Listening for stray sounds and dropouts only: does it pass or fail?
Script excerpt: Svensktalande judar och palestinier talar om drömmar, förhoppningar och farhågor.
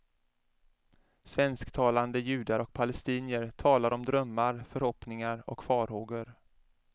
pass